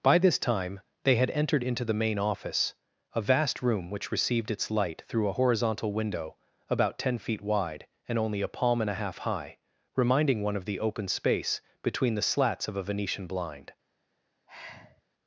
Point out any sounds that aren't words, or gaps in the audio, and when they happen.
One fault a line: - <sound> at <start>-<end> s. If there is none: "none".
- sigh at 14.5-15.0 s